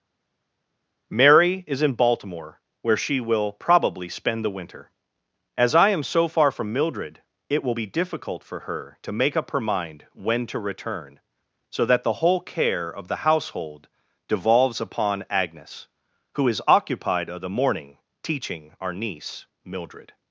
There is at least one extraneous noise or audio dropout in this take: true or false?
false